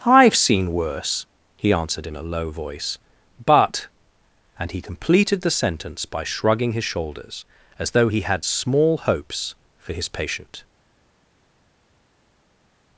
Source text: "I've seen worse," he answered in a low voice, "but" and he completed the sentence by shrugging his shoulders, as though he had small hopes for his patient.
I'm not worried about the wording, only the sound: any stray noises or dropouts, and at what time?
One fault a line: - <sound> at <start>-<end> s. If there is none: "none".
none